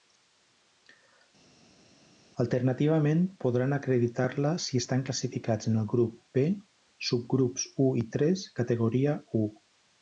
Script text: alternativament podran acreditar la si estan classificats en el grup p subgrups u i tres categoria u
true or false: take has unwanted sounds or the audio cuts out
false